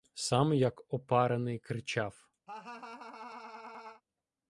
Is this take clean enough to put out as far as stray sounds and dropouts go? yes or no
no